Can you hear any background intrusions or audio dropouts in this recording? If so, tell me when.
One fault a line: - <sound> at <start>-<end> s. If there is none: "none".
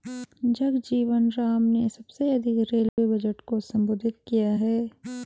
- dropout at 2.9-3.0 s